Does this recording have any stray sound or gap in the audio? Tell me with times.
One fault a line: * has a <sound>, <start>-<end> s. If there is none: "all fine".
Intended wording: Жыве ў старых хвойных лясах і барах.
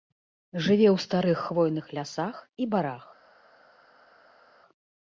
all fine